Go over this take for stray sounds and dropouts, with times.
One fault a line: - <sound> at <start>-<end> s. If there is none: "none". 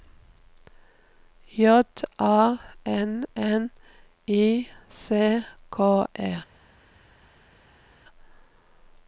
none